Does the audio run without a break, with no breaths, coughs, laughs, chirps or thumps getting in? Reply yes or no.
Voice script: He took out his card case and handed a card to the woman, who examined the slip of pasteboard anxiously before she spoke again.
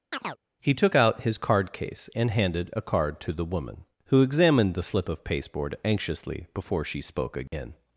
no